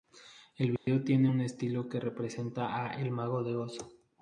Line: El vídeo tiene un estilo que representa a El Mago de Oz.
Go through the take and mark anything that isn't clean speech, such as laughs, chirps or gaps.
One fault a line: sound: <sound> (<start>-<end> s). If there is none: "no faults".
sound: dropout (0.8-0.9 s)